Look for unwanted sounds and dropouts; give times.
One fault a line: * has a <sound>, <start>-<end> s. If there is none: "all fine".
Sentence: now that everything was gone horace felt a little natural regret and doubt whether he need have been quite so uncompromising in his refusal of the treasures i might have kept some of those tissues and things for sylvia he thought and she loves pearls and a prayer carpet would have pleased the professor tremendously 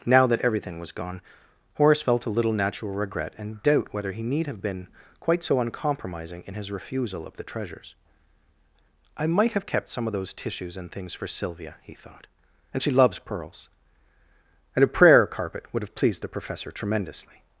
all fine